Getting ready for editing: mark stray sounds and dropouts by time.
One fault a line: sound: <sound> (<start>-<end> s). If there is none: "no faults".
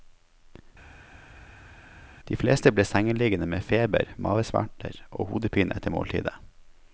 no faults